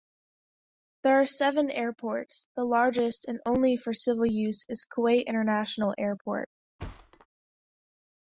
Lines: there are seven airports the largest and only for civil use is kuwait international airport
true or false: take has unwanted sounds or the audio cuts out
true